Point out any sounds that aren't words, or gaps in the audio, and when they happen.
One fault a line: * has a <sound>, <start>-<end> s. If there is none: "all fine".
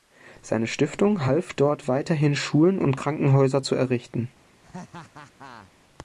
* has a laugh, 4.6-5.7 s